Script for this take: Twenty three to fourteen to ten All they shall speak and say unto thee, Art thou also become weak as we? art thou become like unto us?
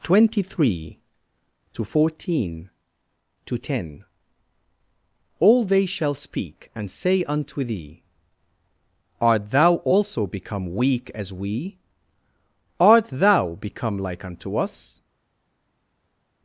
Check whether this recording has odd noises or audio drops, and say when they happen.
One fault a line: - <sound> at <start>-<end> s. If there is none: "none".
none